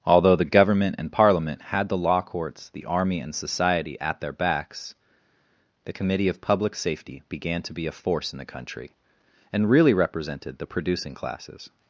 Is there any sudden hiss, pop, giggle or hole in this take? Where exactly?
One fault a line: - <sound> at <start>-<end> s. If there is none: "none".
none